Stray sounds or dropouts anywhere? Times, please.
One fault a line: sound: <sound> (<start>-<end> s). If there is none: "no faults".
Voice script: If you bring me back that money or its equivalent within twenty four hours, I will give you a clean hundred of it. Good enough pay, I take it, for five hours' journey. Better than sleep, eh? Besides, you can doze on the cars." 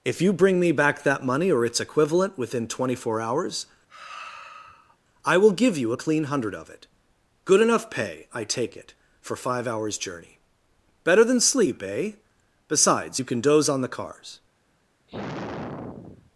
sound: sigh (3.9-5.0 s)
sound: sigh (15.1-16.3 s)